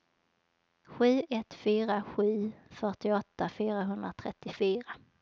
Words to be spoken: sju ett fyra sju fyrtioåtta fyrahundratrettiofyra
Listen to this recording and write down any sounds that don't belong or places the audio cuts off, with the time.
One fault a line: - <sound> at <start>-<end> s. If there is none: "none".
none